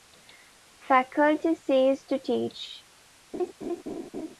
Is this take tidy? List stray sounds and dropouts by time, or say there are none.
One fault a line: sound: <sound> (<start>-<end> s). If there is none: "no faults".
sound: laugh (3.3-4.4 s)